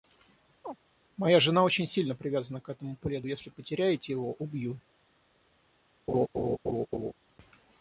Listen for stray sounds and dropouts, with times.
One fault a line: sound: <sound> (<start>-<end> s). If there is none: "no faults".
sound: chirp (0.6-0.8 s)
sound: laugh (6.1-7.1 s)